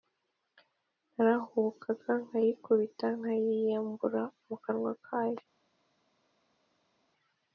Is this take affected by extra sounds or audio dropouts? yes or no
no